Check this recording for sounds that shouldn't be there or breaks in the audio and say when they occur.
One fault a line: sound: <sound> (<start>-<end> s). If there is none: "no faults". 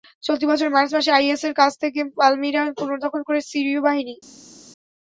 no faults